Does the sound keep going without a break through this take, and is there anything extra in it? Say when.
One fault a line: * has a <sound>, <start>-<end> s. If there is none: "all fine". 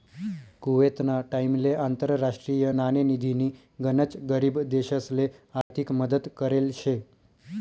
* has a dropout, 5.6-5.7 s